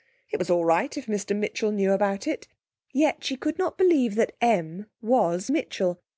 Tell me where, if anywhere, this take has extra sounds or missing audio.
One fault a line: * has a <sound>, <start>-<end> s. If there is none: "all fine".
all fine